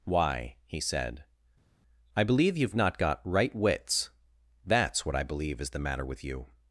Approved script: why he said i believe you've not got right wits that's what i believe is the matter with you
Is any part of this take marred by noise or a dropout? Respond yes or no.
no